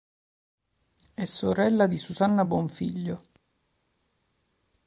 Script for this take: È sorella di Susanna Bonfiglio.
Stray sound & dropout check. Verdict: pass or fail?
pass